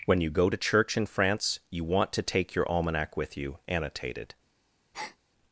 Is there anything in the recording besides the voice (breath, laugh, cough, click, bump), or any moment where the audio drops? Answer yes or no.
yes